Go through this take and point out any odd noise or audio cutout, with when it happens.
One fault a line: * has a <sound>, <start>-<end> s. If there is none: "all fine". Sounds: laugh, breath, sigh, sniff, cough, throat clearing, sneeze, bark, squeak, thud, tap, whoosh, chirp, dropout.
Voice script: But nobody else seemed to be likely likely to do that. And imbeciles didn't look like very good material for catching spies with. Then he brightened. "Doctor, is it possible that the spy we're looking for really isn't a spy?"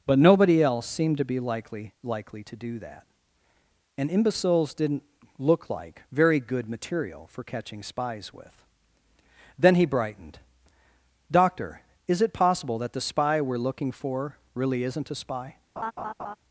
* has a laugh, 15.8-16.4 s